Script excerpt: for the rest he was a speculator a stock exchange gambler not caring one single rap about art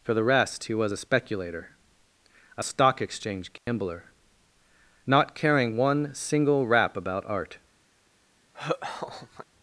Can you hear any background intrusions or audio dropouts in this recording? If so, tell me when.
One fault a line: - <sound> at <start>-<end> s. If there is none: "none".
- dropout at 3.6-3.7 s
- laugh at 8.5-9.5 s